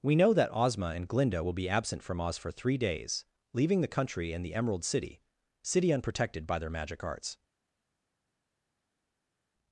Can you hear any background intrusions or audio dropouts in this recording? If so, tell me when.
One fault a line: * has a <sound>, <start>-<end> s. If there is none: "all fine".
all fine